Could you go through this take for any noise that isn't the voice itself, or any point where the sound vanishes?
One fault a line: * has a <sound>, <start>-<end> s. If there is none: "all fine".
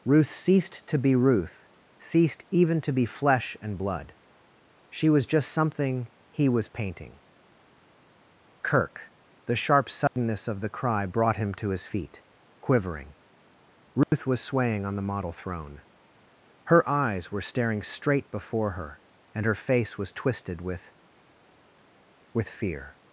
* has a dropout, 10.1-10.2 s
* has a dropout, 14.0-14.1 s